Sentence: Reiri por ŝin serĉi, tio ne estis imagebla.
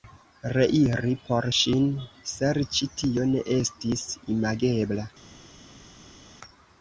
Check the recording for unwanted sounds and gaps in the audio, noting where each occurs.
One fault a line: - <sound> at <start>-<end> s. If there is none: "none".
none